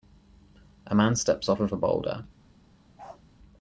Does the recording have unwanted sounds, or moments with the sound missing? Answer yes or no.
yes